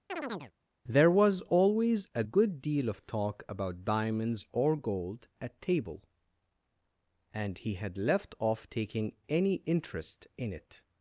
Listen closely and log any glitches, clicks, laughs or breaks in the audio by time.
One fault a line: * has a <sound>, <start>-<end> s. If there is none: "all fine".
* has a chirp, 0.1-0.5 s